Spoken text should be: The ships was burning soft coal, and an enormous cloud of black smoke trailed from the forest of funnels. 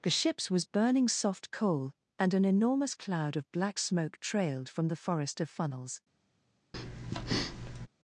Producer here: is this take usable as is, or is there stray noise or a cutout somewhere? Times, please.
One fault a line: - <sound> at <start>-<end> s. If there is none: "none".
- breath at 6.7-7.9 s